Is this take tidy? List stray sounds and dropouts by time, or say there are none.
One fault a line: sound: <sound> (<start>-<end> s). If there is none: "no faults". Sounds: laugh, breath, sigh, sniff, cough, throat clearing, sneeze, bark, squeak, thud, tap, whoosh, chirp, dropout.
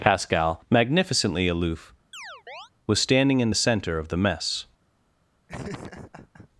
sound: chirp (2.1-2.7 s)
sound: laugh (5.5-6.5 s)